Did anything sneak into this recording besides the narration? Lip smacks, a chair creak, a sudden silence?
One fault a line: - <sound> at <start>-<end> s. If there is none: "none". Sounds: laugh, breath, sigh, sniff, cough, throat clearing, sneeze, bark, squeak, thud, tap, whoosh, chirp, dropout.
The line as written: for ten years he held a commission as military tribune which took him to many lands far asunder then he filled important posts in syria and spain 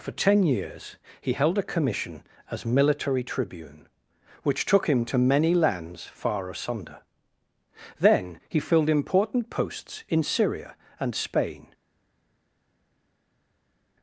none